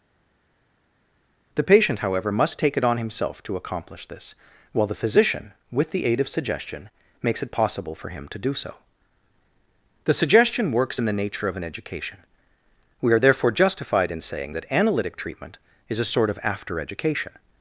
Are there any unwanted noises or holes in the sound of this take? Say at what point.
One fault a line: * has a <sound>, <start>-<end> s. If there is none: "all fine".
all fine